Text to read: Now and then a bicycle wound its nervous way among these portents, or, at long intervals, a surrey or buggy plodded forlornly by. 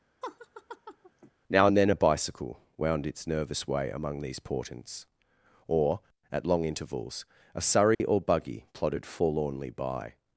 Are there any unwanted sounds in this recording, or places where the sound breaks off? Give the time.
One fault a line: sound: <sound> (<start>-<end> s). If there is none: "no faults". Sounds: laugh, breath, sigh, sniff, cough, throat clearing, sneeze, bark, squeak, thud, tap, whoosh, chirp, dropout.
sound: laugh (0.2-1.3 s)
sound: dropout (7.9-8.0 s)